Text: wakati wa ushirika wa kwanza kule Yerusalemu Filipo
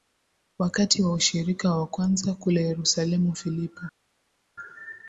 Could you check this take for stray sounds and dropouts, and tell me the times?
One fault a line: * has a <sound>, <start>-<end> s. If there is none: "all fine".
all fine